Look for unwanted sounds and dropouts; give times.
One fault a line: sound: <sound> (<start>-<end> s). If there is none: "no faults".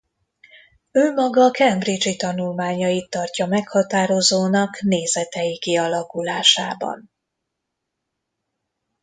no faults